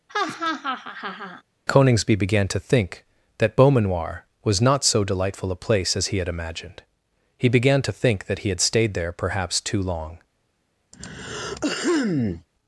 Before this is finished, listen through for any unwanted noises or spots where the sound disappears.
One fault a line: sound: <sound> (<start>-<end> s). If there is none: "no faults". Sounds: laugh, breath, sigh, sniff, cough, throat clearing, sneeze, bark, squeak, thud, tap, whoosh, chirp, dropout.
sound: laugh (0.1-1.4 s)
sound: throat clearing (10.9-12.5 s)